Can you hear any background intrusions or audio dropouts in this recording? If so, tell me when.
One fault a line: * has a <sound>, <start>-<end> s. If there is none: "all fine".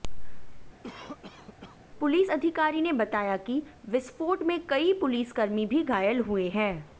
* has a cough, 0.8-1.8 s